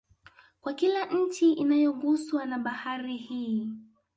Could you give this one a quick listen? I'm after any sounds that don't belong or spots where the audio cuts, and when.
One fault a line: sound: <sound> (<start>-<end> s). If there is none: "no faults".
no faults